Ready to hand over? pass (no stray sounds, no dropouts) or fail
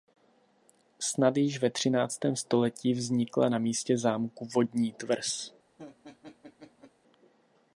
fail